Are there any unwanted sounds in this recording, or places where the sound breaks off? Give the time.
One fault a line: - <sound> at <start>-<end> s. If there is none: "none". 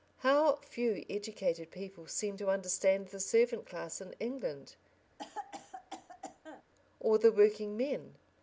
- cough at 5.2-6.6 s